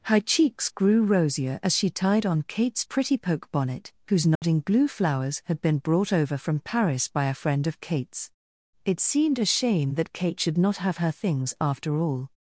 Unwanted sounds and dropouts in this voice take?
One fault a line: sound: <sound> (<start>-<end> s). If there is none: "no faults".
sound: dropout (4.4-4.4 s)